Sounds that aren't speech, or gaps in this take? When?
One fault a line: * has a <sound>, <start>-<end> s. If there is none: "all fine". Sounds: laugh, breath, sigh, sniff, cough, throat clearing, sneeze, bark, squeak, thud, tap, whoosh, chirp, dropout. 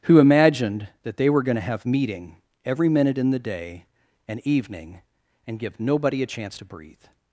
all fine